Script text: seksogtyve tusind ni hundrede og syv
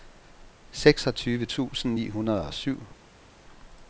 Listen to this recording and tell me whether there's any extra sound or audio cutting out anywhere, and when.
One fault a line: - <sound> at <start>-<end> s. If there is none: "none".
none